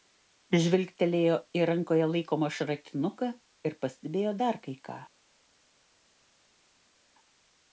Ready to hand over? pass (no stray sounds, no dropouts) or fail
pass